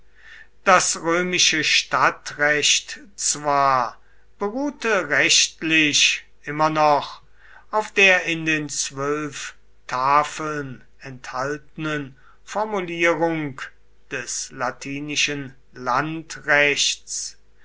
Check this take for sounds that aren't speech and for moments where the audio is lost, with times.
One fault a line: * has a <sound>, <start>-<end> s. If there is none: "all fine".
all fine